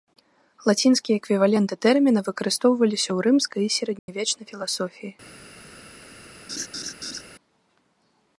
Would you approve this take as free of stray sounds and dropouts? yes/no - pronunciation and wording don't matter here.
no